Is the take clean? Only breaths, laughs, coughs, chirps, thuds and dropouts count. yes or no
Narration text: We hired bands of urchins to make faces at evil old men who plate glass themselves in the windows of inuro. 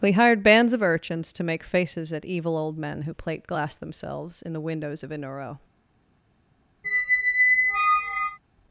no